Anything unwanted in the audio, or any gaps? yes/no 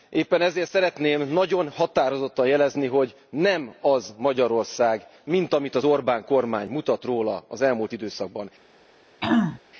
yes